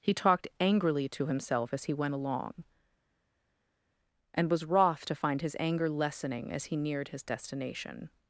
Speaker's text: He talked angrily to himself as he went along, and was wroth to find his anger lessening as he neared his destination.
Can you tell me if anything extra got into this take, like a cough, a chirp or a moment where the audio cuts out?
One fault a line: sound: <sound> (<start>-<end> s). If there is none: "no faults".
no faults